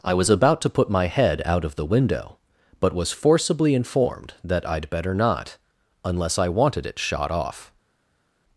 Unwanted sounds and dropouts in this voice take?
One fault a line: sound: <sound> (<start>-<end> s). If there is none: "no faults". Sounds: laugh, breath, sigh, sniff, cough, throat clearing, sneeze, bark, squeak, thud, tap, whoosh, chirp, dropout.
no faults